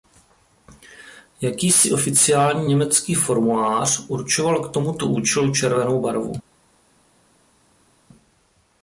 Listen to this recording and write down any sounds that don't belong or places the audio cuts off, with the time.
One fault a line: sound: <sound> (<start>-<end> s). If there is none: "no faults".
no faults